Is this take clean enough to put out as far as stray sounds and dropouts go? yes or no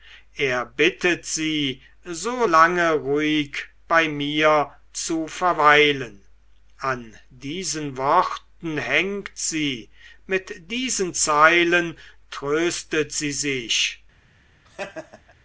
no